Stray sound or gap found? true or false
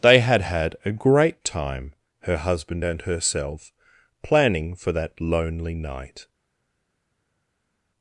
false